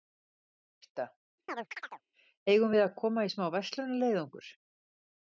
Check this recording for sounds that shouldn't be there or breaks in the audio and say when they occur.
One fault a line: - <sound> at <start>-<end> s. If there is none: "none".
- chirp at 1.5-2.0 s